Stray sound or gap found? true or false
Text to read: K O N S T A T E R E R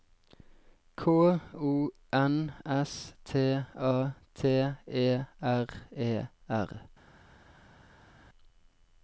false